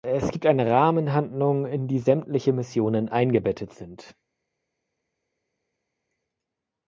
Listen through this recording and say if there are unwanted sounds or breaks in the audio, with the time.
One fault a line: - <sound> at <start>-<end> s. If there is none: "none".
none